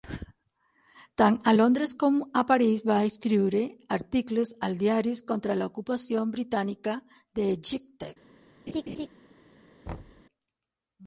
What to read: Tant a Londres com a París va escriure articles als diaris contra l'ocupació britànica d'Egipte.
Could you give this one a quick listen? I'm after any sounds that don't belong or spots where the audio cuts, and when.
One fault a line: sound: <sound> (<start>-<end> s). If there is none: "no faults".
sound: laugh (8.7-9.1 s)
sound: thud (9.9-10.2 s)